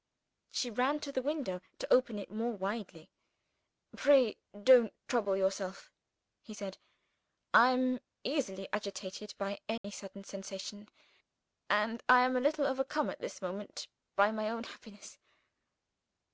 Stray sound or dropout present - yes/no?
yes